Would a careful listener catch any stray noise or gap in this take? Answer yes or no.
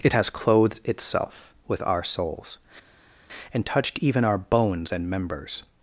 no